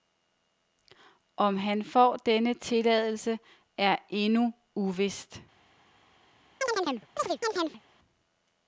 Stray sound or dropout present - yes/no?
yes